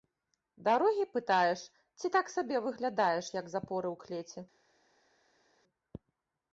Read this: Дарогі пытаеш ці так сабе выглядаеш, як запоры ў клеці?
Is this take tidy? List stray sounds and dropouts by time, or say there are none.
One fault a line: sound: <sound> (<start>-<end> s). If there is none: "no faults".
no faults